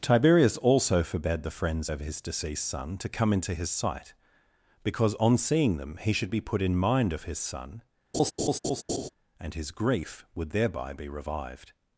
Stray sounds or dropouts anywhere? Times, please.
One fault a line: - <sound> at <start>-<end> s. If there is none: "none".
- laugh at 8.1-9.1 s